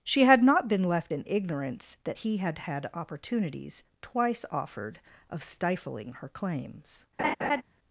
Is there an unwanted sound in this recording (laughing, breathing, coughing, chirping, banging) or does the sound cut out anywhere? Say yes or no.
yes